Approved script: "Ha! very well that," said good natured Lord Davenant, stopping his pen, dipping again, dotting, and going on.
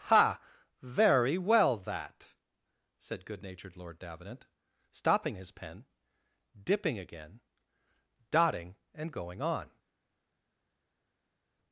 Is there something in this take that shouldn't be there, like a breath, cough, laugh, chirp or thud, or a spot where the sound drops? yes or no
no